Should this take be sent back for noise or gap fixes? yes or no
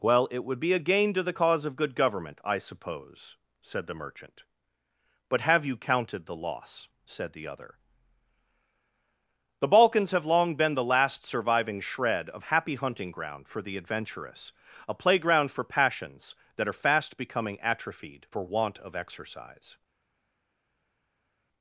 no